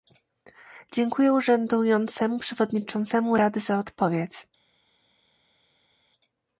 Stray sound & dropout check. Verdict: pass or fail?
pass